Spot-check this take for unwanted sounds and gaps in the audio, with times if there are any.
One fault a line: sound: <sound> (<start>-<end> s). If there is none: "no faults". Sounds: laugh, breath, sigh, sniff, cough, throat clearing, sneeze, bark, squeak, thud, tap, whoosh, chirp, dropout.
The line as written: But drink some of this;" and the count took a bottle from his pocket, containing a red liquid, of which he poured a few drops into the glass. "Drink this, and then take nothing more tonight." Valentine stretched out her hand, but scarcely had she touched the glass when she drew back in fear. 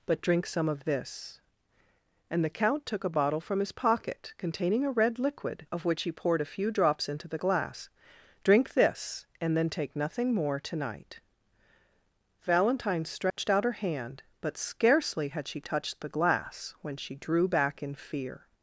sound: dropout (13.3-13.4 s)